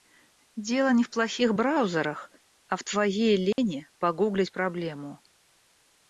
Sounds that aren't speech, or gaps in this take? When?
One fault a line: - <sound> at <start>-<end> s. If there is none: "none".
- dropout at 3.5-3.6 s